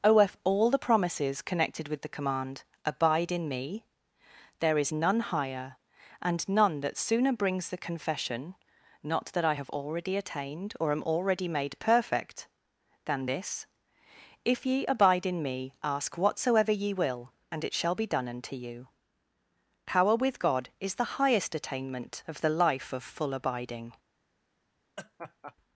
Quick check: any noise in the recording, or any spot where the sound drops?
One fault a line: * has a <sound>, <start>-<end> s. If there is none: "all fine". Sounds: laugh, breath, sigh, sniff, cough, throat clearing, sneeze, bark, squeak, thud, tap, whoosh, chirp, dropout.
* has a laugh, 25.0-25.5 s